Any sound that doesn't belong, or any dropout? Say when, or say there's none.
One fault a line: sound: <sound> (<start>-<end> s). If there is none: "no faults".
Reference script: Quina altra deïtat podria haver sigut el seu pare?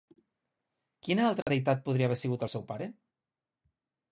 sound: dropout (1.4-1.5 s)